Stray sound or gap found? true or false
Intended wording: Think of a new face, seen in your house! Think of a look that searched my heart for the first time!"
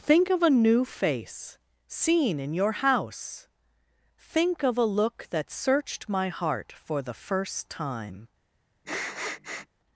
true